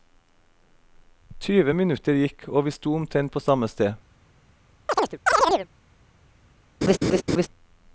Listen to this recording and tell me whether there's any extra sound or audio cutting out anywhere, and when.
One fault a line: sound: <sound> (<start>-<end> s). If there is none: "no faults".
sound: chirp (4.9-5.7 s)
sound: laugh (6.8-7.5 s)